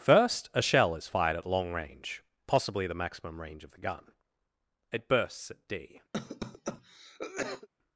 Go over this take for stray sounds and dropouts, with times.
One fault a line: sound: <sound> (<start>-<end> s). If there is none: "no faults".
sound: cough (6.1-7.7 s)